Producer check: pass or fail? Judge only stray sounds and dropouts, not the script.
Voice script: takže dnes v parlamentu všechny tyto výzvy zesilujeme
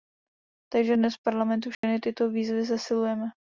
fail